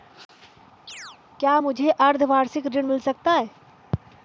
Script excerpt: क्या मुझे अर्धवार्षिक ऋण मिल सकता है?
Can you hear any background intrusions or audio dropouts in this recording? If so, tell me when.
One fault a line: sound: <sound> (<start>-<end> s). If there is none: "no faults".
sound: chirp (0.9-1.2 s)